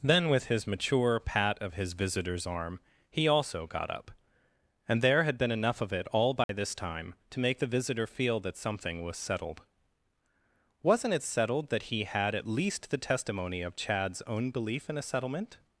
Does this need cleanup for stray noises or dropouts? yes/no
yes